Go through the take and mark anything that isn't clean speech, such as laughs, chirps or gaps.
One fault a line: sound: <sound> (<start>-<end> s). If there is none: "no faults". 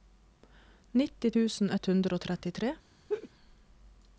sound: laugh (3.1-3.3 s)